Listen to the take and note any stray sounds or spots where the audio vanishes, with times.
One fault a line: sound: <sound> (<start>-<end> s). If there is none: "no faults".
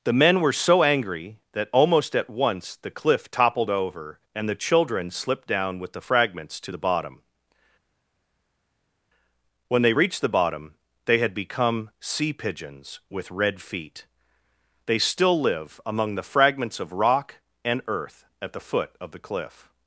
no faults